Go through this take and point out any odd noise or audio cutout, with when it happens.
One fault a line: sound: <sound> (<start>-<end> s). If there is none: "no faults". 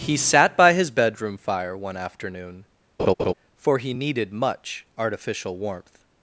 sound: laugh (3.0-3.3 s)